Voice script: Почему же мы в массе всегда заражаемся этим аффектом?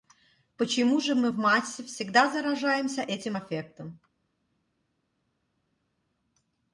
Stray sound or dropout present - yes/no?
no